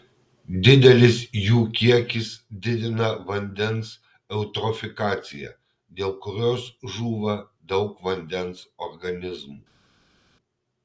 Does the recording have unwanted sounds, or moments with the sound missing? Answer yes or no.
no